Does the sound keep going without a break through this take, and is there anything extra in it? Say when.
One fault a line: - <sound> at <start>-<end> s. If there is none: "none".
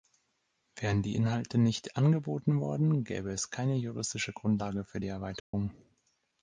- dropout at 5.4-5.5 s